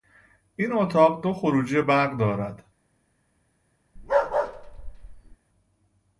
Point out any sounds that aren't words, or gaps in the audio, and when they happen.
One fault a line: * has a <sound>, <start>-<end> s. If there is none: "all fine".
* has a bark, 4.0-5.4 s